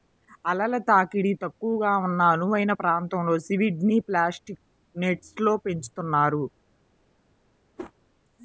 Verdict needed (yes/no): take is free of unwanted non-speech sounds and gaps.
no